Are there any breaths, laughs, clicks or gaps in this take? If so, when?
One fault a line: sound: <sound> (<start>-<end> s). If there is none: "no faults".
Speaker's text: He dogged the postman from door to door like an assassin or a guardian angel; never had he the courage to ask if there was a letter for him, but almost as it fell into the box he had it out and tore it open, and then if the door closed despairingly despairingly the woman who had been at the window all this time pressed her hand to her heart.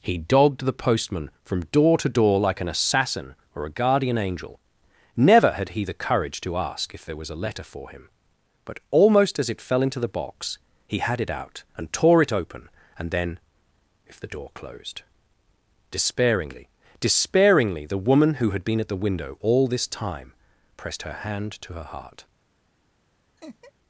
sound: laugh (23.4-23.7 s)